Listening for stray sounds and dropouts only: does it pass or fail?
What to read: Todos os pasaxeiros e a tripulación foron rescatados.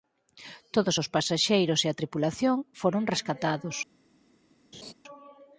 fail